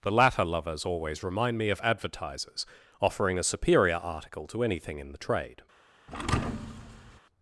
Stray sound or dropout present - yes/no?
yes